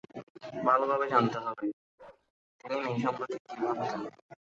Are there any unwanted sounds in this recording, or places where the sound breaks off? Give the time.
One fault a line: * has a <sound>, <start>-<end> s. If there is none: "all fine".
* has a bark, 2.0-2.3 s